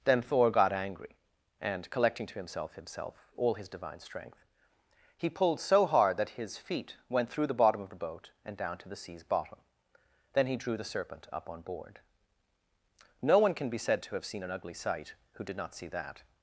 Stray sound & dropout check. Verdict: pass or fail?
pass